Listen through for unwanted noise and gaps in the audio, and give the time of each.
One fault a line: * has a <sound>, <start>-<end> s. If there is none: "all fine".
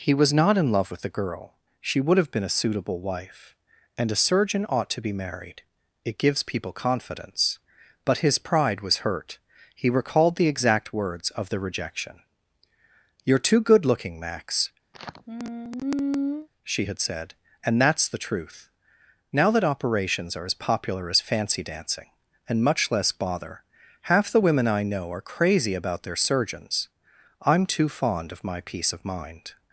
* has a sigh, 14.9-16.5 s